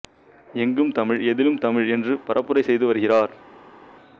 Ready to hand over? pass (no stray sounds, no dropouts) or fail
pass